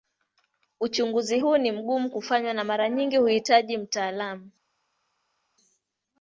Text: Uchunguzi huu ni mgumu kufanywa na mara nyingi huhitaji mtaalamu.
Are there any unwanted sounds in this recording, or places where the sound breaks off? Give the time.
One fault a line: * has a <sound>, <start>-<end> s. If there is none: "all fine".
all fine